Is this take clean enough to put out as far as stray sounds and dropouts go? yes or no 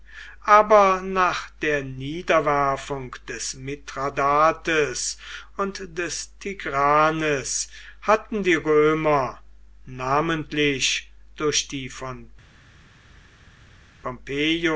yes